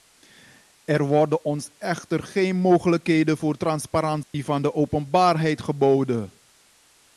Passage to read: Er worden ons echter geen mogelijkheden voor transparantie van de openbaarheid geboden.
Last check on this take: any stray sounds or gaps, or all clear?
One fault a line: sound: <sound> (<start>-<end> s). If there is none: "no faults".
sound: dropout (4.2-4.3 s)